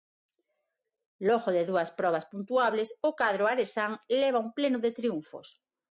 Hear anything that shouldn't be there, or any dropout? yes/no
no